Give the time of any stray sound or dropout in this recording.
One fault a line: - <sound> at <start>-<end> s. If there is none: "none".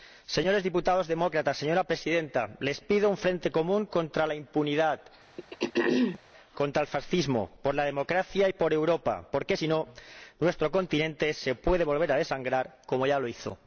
- throat clearing at 5.4-6.2 s